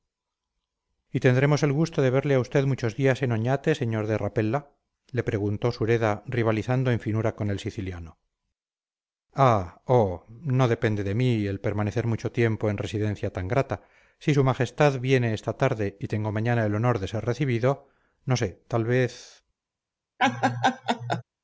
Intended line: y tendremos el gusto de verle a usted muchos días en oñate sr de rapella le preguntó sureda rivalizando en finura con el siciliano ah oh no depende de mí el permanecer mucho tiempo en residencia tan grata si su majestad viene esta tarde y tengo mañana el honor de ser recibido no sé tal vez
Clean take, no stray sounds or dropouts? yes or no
no